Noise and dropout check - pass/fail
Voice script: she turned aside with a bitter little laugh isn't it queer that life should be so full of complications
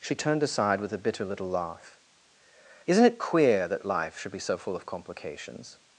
pass